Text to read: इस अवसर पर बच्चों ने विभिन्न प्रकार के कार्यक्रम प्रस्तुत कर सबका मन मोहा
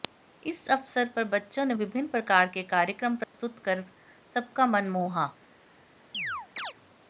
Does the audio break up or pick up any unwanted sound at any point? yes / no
yes